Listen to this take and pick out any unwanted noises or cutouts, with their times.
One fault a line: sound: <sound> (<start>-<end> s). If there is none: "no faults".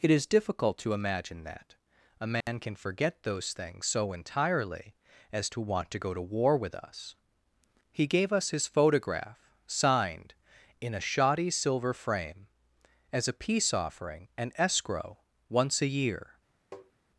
sound: dropout (2.4-2.5 s)
sound: tap (16.7-16.9 s)